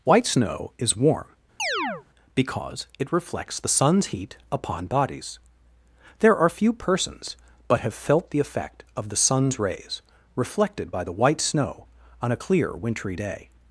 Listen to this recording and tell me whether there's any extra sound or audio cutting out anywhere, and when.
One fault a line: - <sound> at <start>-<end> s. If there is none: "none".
- chirp at 1.6-2.0 s